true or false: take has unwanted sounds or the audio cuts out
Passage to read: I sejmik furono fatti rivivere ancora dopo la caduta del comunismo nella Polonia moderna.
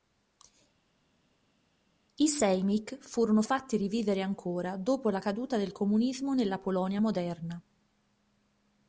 false